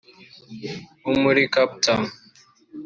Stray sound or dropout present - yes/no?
no